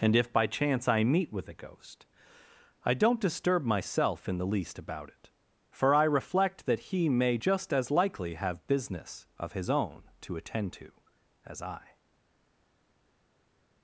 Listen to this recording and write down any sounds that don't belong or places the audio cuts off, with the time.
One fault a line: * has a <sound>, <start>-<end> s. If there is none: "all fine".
all fine